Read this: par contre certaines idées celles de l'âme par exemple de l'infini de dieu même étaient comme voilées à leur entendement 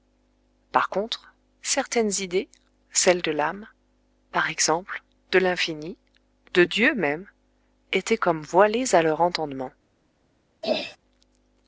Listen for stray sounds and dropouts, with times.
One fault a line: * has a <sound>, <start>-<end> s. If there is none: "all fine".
* has a throat clearing, 10.6-11.0 s